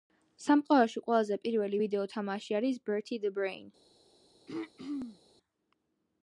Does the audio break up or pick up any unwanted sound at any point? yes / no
yes